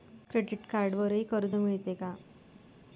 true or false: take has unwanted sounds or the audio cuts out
false